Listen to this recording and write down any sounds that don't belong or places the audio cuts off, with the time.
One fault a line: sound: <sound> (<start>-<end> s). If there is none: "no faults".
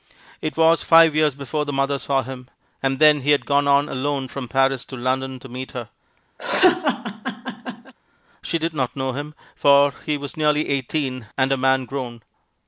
sound: laugh (6.4-7.9 s)